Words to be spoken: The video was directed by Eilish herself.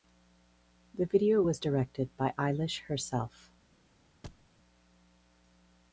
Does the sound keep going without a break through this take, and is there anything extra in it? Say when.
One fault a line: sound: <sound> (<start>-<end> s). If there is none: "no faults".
sound: thud (4.2-4.5 s)